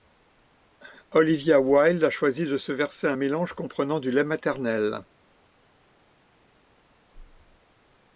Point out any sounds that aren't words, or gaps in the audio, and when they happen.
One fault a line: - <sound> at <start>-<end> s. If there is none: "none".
none